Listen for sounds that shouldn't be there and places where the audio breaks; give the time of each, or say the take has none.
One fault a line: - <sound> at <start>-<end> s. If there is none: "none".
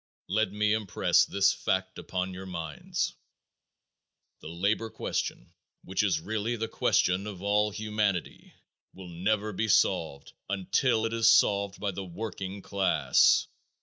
none